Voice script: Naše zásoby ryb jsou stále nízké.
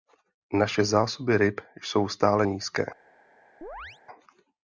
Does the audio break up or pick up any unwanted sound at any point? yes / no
yes